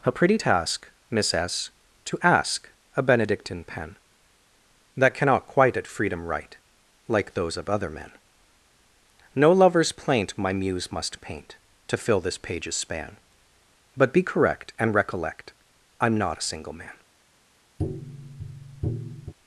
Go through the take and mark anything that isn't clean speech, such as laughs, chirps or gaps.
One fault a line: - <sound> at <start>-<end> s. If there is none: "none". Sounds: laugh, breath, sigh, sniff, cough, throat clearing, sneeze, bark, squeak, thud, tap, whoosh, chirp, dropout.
- tap at 17.8-19.3 s